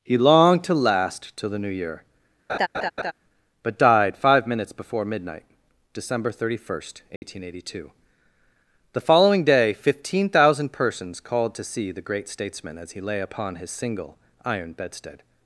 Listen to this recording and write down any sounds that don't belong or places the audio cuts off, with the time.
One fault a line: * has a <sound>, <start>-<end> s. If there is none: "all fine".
* has a laugh, 2.5-3.1 s
* has a dropout, 7.2-7.2 s